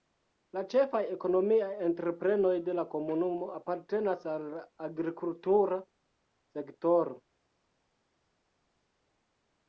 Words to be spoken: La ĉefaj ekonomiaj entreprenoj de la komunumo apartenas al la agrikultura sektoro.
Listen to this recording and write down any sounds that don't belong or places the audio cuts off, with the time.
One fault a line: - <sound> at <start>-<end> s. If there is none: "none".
none